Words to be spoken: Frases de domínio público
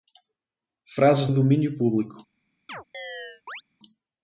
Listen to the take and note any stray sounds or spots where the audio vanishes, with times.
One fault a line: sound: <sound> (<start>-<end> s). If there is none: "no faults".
sound: chirp (2.7-3.6 s)